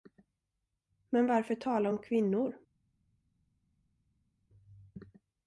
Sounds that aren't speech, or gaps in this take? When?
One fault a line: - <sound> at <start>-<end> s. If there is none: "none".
none